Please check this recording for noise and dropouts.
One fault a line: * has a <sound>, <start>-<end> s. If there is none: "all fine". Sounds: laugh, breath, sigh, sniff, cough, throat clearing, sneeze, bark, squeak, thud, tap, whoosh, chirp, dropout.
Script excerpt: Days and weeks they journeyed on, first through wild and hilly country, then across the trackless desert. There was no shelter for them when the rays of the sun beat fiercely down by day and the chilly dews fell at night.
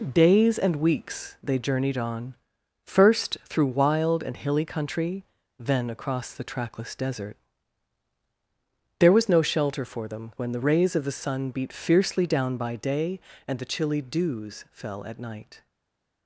all fine